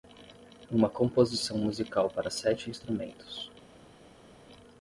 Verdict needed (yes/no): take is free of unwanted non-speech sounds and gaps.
yes